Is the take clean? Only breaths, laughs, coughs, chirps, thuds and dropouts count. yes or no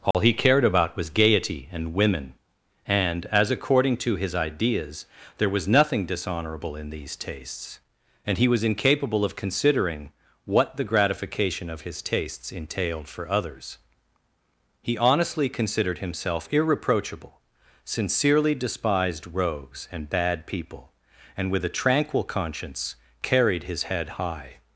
no